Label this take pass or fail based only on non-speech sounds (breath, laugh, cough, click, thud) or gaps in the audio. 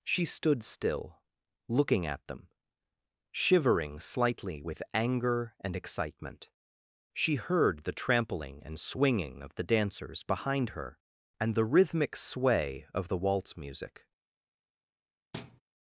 fail